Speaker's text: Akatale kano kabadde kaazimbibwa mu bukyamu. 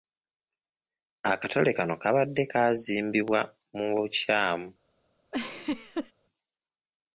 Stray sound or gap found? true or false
true